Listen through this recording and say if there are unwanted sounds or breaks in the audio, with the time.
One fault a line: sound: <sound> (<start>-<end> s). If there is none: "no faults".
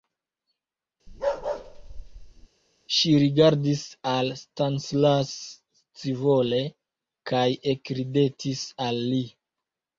sound: bark (1.1-2.5 s)